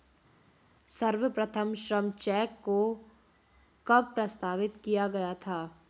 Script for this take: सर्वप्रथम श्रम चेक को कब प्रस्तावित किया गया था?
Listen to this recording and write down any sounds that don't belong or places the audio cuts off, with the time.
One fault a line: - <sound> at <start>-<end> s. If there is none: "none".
none